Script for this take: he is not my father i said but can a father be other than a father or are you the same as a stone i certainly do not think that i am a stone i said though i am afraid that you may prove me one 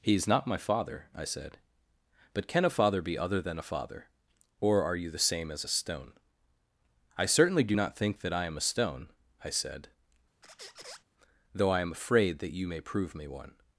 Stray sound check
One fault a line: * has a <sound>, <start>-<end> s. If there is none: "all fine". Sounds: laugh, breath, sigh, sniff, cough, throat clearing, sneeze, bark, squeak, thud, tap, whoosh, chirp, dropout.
* has a squeak, 10.4-11.0 s